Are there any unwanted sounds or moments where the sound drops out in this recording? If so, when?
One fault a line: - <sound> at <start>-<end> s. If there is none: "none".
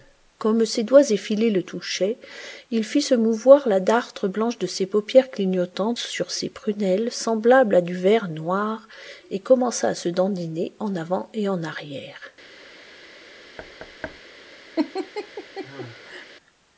- thud at 13.6-14.2 s
- laugh at 14.8-16.3 s